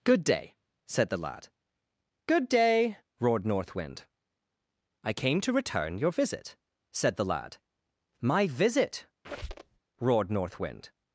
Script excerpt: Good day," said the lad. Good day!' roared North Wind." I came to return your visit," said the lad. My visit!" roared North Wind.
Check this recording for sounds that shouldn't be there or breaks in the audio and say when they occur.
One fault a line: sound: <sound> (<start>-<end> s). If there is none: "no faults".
sound: squeak (9.2-9.8 s)